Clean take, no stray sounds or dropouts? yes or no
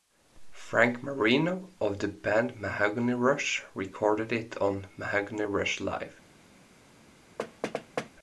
no